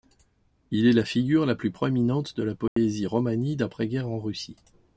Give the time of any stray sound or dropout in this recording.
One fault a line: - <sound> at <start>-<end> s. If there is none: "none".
- dropout at 2.7-2.8 s